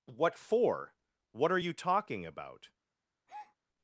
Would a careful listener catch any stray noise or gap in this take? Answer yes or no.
yes